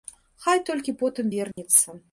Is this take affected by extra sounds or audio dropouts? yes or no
yes